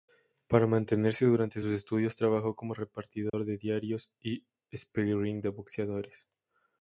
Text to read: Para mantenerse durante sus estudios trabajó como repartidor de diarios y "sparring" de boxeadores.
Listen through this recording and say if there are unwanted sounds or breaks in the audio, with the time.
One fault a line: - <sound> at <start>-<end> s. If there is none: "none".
- dropout at 3.3-3.3 s